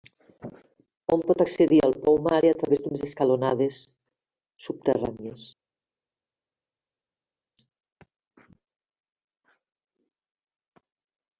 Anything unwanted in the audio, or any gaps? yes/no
no